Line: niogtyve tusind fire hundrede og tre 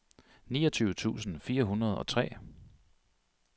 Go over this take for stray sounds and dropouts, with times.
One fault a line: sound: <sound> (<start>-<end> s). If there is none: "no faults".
no faults